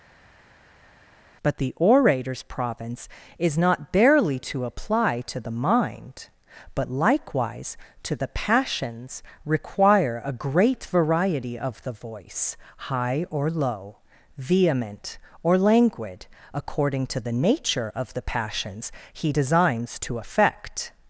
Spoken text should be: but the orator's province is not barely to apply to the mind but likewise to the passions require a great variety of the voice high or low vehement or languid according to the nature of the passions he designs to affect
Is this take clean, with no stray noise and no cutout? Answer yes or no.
yes